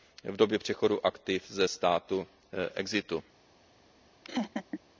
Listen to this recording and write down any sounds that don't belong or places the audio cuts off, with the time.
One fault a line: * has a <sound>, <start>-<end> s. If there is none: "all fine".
* has a laugh, 4.2-4.8 s